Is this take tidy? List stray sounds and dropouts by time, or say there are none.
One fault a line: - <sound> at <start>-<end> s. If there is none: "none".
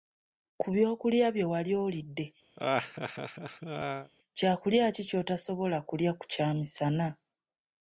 - laugh at 2.6-4.1 s